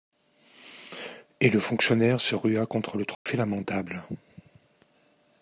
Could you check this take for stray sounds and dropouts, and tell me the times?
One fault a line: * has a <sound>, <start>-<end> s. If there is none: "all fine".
* has a dropout, 3.1-3.3 s